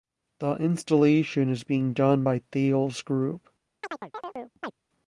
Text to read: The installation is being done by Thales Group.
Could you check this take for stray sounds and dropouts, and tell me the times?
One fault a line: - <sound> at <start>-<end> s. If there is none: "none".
- chirp at 3.8-4.7 s